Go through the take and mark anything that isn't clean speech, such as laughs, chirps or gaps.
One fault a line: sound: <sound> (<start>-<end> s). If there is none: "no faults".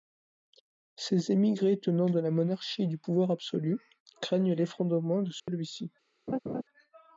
sound: dropout (5.4-5.5 s)
sound: laugh (6.3-6.6 s)